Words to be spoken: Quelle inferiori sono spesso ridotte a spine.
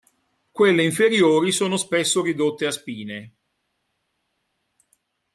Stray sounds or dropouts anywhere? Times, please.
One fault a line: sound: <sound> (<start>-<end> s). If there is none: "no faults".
no faults